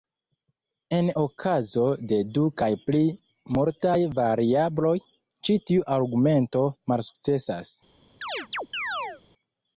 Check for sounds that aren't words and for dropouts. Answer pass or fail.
fail